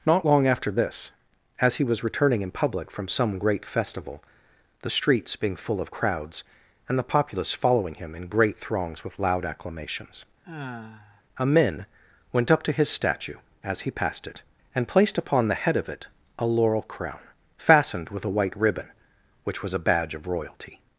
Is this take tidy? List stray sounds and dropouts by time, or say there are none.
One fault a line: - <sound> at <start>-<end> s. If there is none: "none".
- sigh at 10.4-11.2 s